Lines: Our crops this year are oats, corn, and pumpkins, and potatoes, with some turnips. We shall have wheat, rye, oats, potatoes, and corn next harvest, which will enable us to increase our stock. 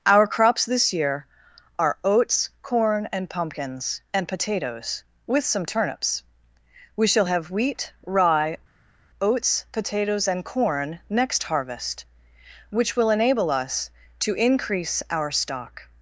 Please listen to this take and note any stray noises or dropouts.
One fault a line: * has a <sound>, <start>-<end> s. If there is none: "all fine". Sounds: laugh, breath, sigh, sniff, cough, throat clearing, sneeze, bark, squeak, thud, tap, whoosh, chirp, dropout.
all fine